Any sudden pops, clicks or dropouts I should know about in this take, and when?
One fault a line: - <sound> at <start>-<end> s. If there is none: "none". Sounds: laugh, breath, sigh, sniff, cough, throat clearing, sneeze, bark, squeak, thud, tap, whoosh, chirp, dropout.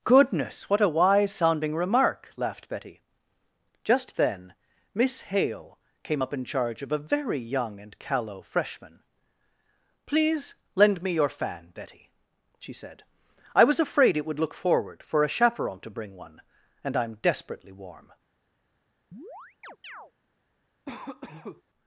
- chirp at 19.1-20.1 s
- cough at 20.9-21.6 s